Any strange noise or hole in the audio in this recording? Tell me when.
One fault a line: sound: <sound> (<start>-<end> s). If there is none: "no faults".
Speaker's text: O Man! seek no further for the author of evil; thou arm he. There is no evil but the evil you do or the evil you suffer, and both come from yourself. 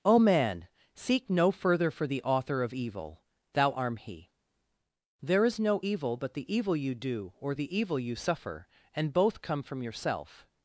no faults